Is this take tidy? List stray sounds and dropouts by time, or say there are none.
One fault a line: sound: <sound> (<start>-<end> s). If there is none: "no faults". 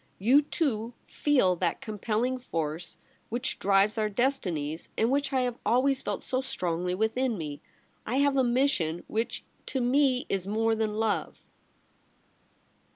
no faults